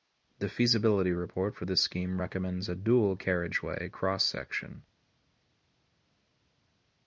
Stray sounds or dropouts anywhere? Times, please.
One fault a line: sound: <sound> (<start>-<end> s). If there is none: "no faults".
no faults